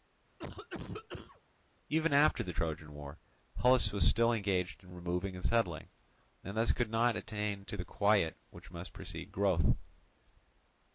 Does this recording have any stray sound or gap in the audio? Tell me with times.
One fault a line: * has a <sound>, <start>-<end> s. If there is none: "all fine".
* has a cough, 0.4-1.4 s